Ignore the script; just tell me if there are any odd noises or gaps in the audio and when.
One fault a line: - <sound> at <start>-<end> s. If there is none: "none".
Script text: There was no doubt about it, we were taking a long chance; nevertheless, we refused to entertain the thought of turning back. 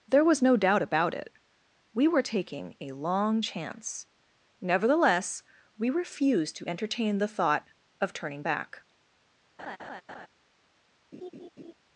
- laugh at 9.6-10.3 s
- laugh at 11.1-11.7 s